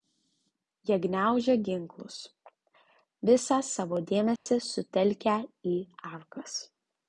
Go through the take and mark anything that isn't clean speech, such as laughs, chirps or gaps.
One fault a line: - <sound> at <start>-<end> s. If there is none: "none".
- dropout at 4.4-4.5 s